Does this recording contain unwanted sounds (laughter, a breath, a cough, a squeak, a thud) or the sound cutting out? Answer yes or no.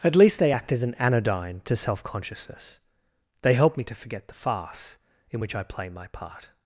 no